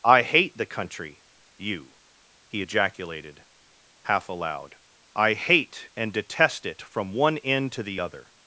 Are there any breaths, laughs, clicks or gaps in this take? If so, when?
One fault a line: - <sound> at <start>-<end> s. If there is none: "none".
none